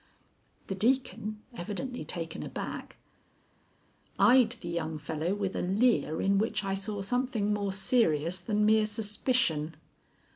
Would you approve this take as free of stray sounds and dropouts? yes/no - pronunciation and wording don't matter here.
yes